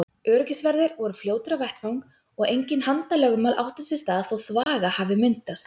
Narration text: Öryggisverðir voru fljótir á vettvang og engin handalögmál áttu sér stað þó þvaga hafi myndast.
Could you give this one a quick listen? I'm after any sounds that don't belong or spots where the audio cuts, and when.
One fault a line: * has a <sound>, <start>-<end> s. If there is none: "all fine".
* has a dropout, 4.6-4.7 s